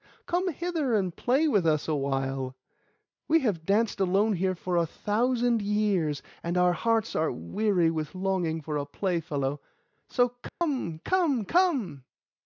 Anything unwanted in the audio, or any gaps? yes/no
yes